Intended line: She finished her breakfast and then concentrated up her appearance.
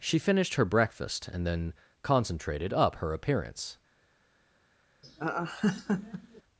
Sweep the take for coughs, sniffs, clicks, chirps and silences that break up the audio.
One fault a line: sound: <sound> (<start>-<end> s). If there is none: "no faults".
sound: laugh (5.0-6.4 s)